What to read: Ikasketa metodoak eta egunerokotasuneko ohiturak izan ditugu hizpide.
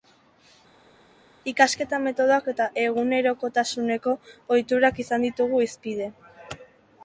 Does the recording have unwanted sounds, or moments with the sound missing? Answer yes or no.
no